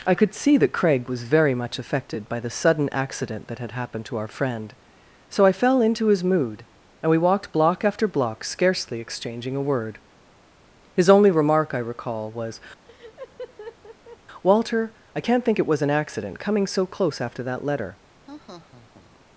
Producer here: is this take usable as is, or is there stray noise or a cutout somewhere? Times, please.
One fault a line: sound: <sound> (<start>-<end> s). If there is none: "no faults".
sound: laugh (12.8-14.2 s)
sound: laugh (18.3-19.3 s)